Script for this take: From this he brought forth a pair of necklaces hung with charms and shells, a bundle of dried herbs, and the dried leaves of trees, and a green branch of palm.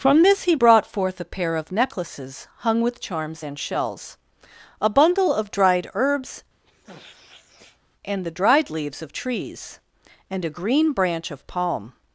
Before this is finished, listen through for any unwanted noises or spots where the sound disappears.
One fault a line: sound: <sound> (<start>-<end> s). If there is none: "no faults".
sound: sniff (6.6-7.8 s)